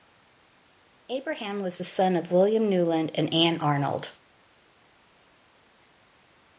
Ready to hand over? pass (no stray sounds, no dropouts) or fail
pass